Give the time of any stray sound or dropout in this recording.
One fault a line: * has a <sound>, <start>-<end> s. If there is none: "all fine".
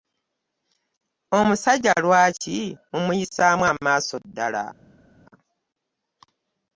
all fine